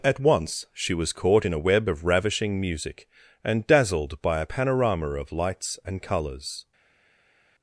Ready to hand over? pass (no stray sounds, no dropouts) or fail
pass